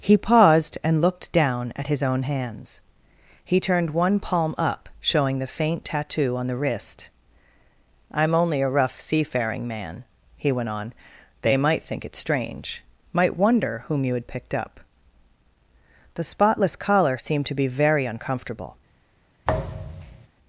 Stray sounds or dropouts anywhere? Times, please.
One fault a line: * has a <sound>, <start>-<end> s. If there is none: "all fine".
* has a thud, 19.4-20.3 s